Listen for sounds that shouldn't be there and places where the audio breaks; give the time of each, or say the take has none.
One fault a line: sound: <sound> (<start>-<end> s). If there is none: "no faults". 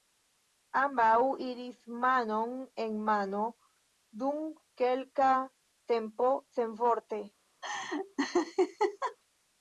sound: laugh (7.6-9.2 s)